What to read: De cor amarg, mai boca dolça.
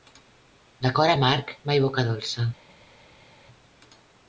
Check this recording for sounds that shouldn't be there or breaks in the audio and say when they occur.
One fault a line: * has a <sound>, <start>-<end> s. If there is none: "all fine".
all fine